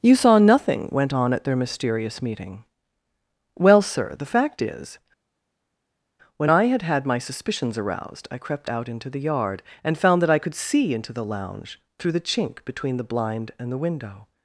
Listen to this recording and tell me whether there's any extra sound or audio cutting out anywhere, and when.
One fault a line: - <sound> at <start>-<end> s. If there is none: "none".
none